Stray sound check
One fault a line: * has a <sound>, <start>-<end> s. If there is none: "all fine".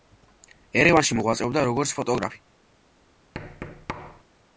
* has a thud, 3.3-4.2 s